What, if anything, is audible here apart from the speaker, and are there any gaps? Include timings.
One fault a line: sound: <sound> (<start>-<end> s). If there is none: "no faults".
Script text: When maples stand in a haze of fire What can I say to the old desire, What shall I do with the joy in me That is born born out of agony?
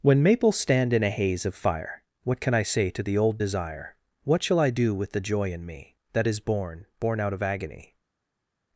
no faults